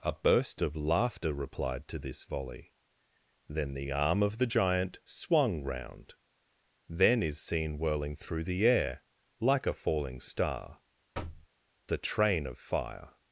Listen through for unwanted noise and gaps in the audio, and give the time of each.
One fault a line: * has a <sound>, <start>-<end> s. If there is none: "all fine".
* has a thud, 11.1-11.5 s